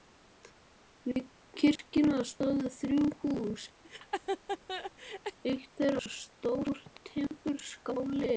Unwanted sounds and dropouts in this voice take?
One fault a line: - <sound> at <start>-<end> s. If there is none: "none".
- laugh at 3.8-5.4 s